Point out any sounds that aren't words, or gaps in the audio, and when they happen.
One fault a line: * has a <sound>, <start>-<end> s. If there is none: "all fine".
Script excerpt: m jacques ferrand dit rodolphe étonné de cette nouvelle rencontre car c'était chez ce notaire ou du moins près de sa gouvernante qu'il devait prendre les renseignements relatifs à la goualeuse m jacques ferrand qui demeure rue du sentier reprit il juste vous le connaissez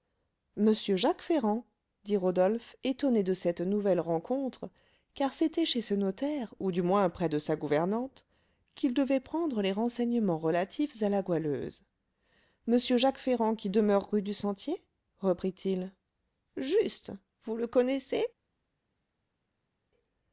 all fine